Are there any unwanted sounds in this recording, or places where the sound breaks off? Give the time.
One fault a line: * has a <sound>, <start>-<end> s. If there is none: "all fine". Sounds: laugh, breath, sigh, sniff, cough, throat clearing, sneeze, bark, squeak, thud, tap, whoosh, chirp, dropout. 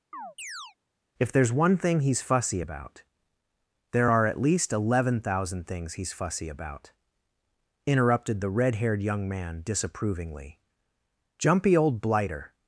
* has a chirp, 0.1-0.8 s